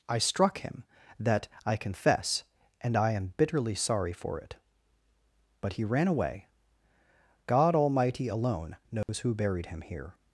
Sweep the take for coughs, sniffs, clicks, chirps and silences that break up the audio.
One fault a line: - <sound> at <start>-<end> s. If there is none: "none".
- dropout at 9.0-9.1 s